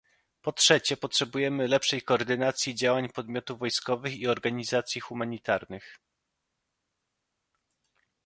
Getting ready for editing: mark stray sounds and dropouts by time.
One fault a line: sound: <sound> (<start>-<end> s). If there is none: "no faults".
no faults